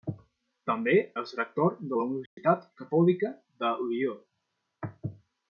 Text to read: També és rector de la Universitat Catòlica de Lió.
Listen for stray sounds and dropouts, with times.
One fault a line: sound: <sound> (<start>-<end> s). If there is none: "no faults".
sound: dropout (2.3-2.4 s)